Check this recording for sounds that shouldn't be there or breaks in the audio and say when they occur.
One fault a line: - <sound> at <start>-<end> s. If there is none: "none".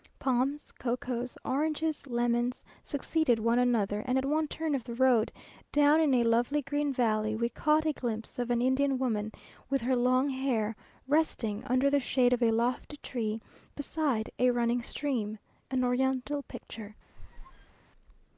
- squeak at 17.1-17.8 s